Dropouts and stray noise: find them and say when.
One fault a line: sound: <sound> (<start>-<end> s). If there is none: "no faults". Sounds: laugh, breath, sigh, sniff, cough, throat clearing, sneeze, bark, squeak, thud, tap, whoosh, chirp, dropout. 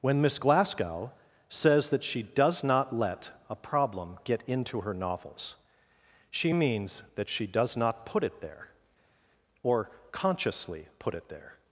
no faults